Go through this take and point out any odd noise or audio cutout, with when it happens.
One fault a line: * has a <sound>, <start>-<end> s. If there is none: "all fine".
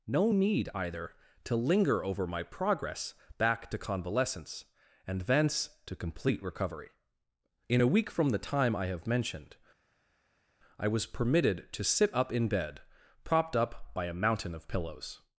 all fine